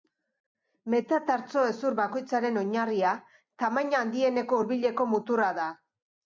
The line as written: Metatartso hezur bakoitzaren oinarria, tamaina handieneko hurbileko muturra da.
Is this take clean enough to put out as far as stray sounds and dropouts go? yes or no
yes